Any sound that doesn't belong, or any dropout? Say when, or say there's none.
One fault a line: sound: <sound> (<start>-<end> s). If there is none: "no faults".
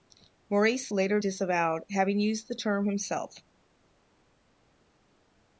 no faults